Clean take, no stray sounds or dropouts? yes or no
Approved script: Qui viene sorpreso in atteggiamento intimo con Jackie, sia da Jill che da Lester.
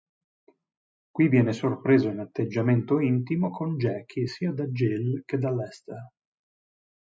yes